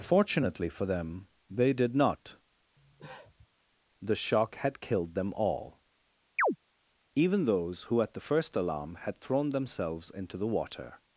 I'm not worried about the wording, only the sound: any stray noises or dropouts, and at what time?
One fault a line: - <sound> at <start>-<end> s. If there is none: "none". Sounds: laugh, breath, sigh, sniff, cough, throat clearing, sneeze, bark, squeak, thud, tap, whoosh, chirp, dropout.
- cough at 2.8-3.5 s
- chirp at 6.4-6.6 s